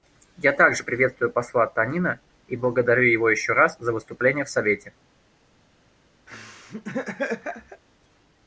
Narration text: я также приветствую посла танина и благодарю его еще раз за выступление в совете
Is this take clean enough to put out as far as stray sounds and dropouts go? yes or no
no